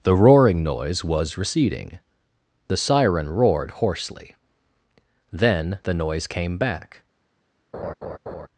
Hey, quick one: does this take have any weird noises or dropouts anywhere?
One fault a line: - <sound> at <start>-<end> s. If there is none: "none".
- laugh at 7.7-8.5 s